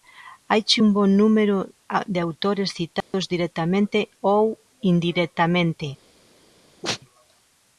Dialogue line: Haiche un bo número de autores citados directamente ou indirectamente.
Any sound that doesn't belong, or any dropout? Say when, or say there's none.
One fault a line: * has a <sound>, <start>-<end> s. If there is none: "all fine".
* has a dropout, 3.0-3.1 s
* has a sneeze, 6.8-7.0 s